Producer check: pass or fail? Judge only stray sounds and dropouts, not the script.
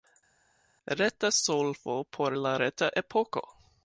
pass